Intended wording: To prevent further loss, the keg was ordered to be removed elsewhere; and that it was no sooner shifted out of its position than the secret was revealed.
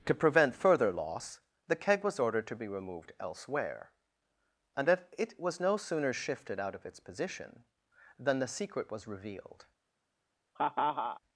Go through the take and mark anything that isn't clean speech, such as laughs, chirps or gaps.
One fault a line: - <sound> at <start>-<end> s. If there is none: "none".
- laugh at 10.5-11.2 s